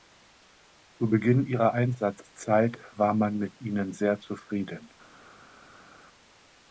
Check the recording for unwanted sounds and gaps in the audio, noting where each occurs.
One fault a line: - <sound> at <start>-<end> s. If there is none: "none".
none